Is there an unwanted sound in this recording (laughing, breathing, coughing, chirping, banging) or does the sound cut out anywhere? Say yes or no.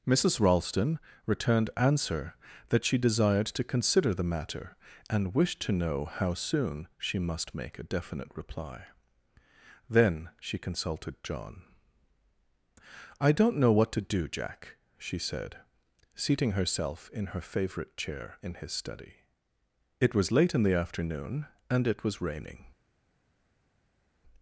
no